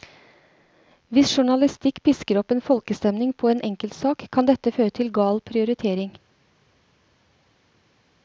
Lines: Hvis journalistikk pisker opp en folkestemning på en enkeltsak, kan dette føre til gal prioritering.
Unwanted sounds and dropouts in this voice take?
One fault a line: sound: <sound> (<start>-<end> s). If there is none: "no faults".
no faults